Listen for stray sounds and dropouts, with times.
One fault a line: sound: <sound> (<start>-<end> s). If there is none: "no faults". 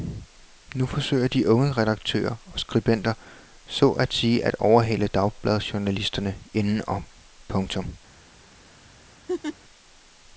sound: laugh (9.3-9.6 s)